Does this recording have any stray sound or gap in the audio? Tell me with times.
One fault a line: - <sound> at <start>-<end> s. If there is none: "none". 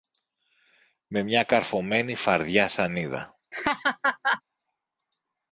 - laugh at 3.5-4.4 s